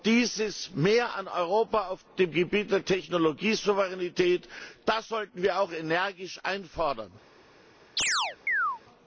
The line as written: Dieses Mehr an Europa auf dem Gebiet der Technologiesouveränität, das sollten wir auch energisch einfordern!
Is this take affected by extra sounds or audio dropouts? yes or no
yes